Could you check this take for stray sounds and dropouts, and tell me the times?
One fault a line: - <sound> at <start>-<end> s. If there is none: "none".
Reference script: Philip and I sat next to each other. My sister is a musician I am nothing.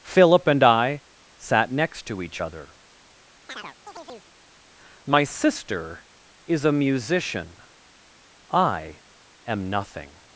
- chirp at 3.5-4.3 s